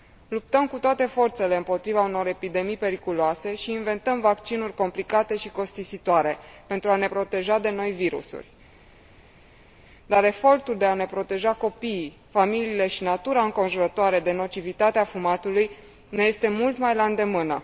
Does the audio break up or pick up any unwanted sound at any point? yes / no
no